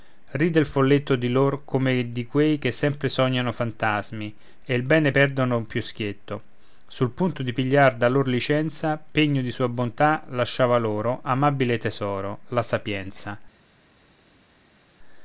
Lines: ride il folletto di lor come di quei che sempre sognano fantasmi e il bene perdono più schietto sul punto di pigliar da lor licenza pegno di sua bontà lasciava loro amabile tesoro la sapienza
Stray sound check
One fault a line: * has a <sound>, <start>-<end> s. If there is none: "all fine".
all fine